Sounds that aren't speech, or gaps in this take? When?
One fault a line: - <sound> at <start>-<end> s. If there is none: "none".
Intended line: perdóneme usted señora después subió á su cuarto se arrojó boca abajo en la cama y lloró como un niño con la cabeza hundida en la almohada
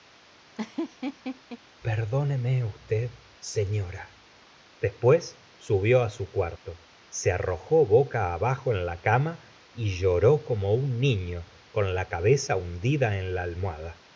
- laugh at 0.5-1.6 s